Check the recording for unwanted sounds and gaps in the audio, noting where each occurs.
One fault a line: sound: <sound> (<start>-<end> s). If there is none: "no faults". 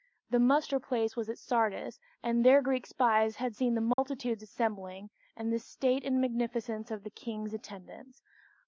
sound: dropout (3.9-4.0 s)